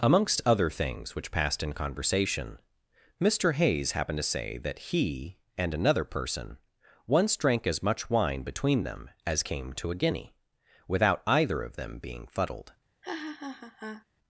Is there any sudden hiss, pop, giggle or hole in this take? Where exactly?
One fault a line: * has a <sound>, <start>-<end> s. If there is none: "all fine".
* has a laugh, 13.0-14.0 s